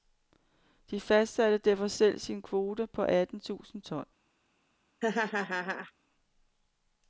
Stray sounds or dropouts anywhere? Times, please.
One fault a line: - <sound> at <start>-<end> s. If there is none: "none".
- laugh at 5.0-5.9 s